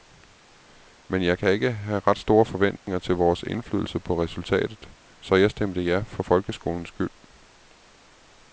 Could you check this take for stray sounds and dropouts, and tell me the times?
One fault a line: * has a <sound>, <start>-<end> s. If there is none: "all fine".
* has a dropout, 2.8-2.9 s